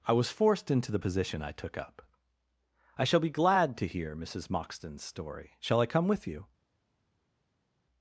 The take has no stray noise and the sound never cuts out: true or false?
true